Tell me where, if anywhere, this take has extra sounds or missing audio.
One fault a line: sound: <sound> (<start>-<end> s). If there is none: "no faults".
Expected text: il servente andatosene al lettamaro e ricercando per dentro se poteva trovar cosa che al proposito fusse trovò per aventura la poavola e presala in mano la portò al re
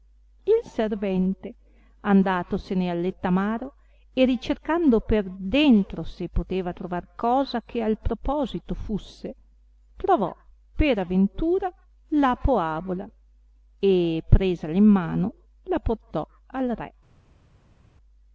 no faults